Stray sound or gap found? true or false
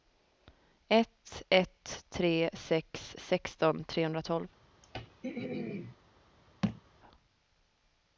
true